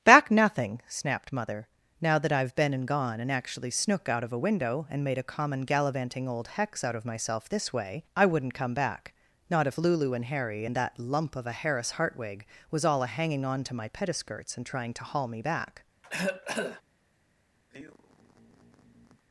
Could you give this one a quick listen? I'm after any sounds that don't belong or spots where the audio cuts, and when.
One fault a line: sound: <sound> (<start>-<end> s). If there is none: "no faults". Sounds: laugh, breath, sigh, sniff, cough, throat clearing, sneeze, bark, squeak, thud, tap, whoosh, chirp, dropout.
sound: cough (16.0-16.8 s)
sound: sigh (17.7-19.2 s)